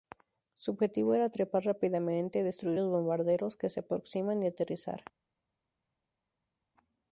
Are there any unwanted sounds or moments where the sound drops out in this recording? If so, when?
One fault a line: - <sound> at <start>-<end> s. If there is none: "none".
none